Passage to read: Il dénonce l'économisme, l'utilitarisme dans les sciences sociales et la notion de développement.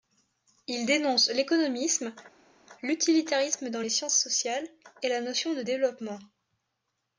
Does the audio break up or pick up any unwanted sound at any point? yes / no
no